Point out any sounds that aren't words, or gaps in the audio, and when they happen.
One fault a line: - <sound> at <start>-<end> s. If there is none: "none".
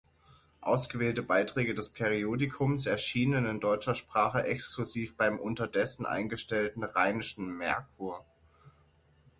none